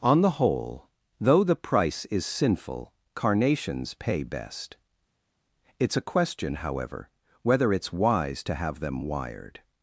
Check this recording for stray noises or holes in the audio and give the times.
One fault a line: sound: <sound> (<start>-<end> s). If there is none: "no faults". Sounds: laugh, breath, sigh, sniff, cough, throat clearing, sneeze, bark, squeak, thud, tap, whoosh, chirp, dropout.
no faults